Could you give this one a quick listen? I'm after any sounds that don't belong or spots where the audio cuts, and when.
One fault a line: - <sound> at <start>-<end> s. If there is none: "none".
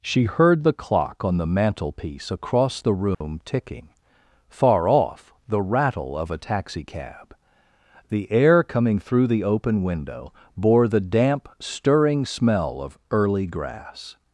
- dropout at 3.1-3.2 s